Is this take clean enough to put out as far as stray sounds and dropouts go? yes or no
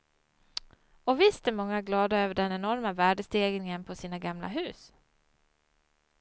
yes